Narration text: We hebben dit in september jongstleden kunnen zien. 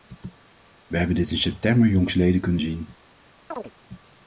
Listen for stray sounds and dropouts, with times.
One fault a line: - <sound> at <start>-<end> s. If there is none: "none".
- chirp at 3.5-3.7 s